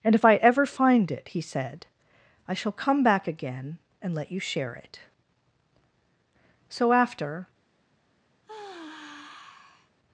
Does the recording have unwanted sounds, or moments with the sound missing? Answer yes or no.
yes